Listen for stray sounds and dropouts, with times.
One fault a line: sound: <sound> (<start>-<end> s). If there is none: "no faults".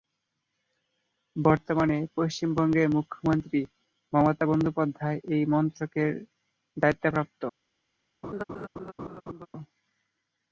sound: laugh (8.2-9.5 s)